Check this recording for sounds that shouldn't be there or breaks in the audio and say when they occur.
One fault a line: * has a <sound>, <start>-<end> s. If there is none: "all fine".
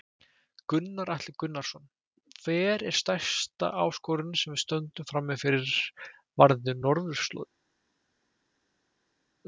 all fine